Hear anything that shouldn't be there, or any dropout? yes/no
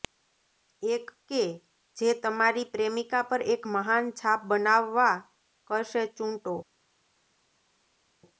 no